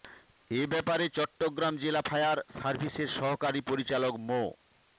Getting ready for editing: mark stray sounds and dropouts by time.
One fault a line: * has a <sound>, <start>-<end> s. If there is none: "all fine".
all fine